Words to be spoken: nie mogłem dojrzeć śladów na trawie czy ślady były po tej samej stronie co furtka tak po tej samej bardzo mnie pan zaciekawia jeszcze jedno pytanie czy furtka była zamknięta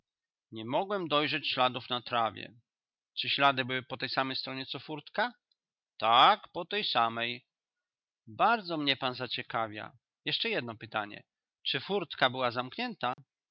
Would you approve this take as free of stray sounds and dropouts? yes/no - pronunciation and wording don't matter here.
no